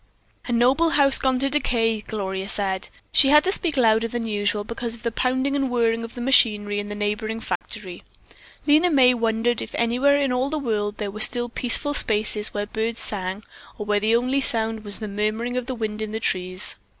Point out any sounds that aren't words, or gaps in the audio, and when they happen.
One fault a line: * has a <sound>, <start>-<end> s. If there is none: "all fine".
* has a dropout, 7.6-7.6 s